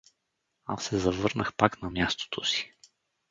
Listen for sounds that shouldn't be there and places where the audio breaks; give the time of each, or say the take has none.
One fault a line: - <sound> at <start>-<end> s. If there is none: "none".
none